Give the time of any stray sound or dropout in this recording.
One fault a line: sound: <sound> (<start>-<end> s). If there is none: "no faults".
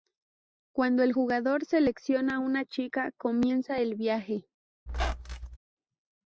sound: squeak (4.9-5.6 s)